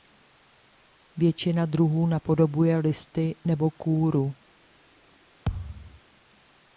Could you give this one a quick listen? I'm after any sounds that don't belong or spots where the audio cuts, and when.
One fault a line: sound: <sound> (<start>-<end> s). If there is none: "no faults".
sound: thud (5.5-6.0 s)